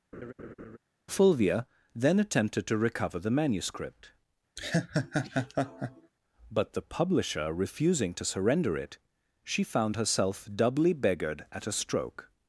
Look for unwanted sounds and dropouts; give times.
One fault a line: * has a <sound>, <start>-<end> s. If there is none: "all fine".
* has a laugh, 0.1-0.8 s
* has a laugh, 4.6-6.1 s